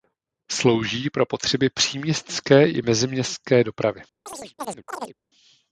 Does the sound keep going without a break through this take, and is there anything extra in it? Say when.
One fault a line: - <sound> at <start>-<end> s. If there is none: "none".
- chirp at 4.3-5.2 s